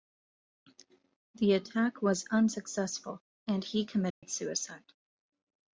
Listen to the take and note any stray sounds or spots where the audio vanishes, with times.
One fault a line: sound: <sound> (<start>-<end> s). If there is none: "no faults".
sound: dropout (4.1-4.2 s)